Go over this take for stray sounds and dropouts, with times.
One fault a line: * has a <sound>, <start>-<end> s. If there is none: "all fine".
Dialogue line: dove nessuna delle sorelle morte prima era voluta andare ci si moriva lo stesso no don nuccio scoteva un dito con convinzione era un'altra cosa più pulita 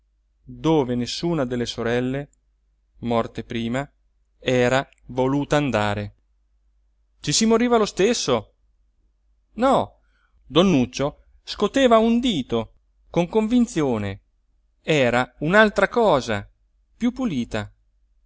all fine